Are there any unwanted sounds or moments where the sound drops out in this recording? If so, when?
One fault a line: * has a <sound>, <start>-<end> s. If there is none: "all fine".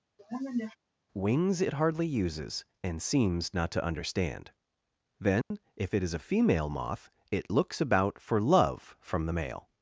* has a sniff, 0.2-0.8 s
* has a dropout, 5.4-5.5 s